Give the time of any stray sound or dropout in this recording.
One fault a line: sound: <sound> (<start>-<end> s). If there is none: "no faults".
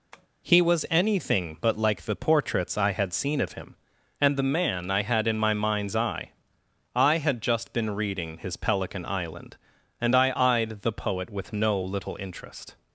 sound: tap (0.1-0.3 s)